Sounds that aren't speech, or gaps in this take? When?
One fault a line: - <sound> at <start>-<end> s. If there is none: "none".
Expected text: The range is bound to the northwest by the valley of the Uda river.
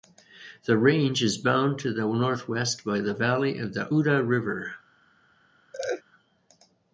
- laugh at 5.7-6.0 s